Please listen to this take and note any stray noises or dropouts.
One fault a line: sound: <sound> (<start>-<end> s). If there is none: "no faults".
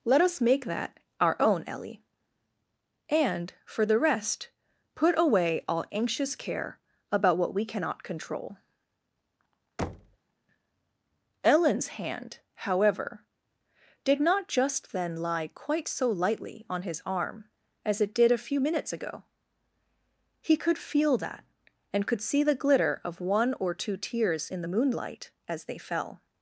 sound: thud (9.8-10.2 s)